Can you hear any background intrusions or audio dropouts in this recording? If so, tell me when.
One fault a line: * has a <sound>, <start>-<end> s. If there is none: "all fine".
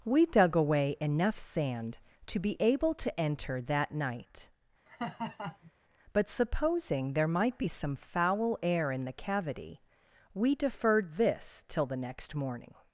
* has a laugh, 4.9-5.7 s